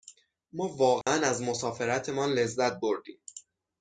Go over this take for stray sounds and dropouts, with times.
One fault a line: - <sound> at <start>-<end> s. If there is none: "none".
- dropout at 1.0-1.1 s